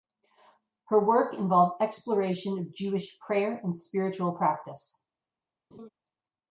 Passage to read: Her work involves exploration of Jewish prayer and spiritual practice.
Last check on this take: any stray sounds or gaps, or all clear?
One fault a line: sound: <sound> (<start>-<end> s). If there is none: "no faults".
sound: laugh (5.7-5.9 s)